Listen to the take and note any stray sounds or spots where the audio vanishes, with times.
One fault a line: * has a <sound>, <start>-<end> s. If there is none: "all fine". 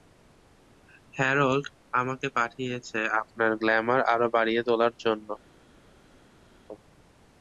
all fine